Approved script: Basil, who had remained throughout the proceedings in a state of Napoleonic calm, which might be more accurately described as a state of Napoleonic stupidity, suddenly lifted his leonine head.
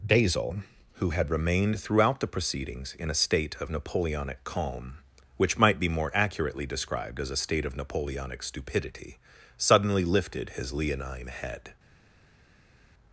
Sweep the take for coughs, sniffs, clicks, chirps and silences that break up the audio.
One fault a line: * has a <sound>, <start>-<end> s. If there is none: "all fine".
all fine